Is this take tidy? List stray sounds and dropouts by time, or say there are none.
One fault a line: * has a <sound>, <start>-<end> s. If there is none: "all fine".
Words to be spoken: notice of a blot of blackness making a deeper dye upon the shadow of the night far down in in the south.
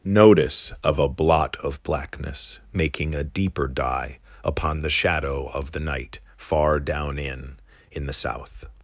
all fine